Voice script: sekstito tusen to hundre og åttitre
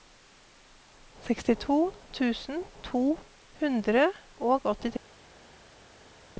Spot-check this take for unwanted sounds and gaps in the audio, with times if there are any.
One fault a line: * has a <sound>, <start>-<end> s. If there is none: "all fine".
all fine